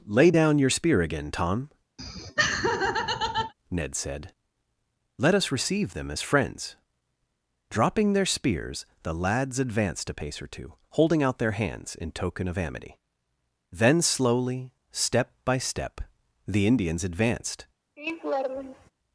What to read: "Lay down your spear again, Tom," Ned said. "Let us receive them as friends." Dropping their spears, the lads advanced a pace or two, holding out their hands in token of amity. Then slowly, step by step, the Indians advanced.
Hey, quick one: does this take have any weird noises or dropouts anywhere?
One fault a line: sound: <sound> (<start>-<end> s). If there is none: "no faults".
sound: laugh (2.0-3.5 s)
sound: laugh (18.0-18.9 s)